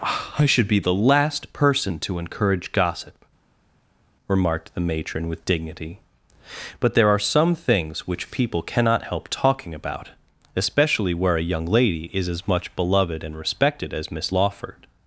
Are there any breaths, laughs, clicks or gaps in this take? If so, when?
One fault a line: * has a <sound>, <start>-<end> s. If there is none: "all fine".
all fine